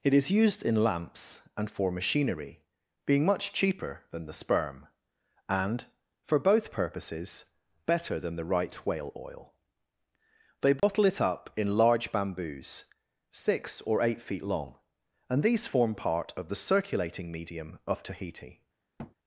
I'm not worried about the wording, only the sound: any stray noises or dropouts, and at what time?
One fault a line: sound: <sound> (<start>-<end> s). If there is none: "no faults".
sound: dropout (10.8-10.8 s)
sound: thud (19.0-19.2 s)